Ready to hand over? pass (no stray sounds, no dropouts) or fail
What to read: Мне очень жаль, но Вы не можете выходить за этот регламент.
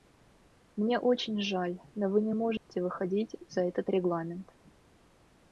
fail